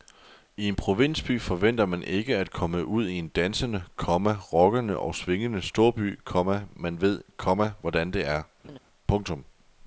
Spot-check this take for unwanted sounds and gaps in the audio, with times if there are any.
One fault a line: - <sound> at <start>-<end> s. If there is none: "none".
- laugh at 8.6-8.8 s